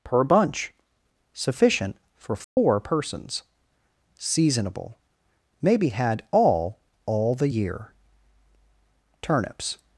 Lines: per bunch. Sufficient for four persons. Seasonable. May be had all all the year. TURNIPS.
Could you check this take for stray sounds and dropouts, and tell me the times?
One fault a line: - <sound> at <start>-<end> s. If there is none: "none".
- dropout at 2.4-2.6 s